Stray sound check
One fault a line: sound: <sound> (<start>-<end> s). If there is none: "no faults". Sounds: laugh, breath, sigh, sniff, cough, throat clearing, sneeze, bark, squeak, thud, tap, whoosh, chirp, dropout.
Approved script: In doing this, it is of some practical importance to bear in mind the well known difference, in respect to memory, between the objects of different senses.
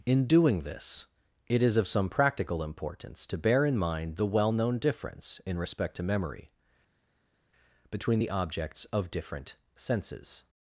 no faults